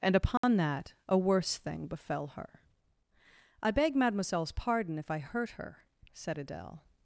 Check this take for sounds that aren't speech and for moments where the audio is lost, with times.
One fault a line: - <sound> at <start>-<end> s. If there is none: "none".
- dropout at 0.4-0.4 s